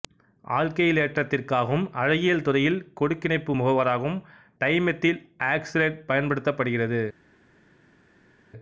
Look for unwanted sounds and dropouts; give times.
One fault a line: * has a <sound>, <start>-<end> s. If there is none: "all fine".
all fine